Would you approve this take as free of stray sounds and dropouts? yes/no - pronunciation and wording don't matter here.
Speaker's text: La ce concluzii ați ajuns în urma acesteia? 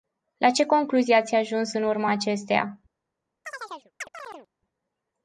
no